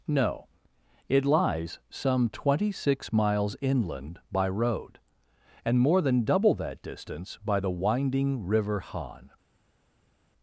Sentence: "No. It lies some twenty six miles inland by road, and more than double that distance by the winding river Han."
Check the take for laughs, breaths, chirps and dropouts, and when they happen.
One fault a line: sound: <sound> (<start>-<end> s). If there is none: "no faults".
no faults